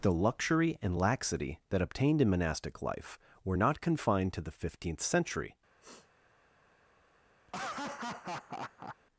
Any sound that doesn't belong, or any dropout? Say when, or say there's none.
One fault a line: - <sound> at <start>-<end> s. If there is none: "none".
- sniff at 5.8-6.1 s
- laugh at 7.5-9.0 s